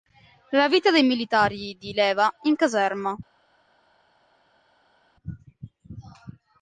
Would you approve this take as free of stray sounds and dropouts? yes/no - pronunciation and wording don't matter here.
yes